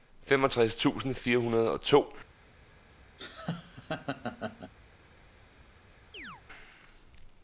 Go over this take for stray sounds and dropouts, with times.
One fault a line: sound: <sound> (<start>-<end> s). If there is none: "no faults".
sound: laugh (3.2-4.7 s)
sound: chirp (6.1-6.4 s)